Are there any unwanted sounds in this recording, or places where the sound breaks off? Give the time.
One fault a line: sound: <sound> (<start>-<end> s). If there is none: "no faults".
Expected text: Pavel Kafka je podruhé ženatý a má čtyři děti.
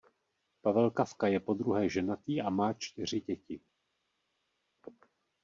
no faults